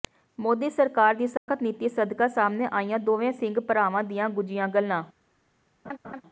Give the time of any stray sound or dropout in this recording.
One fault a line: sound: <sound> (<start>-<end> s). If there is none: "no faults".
sound: dropout (1.4-1.5 s)
sound: laugh (5.8-6.2 s)